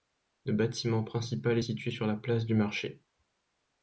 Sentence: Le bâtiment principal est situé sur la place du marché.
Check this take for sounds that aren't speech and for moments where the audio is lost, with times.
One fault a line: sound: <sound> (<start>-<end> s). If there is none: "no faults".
no faults